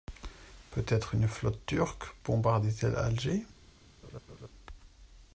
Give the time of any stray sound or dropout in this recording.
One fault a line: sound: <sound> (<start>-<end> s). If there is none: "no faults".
sound: laugh (4.0-4.5 s)